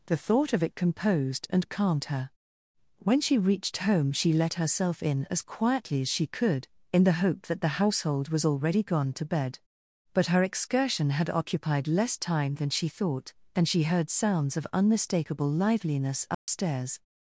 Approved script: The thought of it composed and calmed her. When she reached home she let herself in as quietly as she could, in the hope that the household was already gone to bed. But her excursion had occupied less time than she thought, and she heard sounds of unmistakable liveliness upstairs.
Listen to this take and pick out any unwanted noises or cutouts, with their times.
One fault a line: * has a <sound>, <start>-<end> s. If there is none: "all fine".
* has a dropout, 16.3-16.5 s